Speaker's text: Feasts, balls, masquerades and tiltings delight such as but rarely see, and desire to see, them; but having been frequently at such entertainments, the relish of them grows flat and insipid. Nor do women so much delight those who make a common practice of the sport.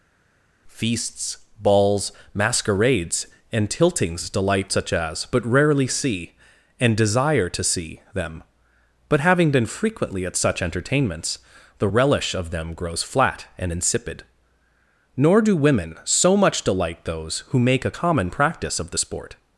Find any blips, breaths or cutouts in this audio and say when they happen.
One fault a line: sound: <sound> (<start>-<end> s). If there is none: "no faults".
no faults